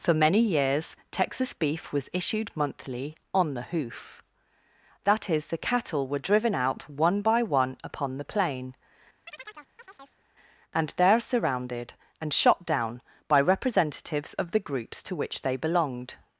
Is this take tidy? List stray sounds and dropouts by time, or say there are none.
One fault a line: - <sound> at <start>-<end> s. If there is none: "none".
- chirp at 9.3-10.2 s